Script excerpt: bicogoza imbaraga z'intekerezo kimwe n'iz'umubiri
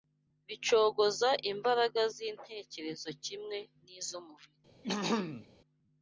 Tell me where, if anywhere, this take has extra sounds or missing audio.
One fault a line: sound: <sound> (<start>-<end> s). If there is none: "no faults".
sound: throat clearing (4.8-5.5 s)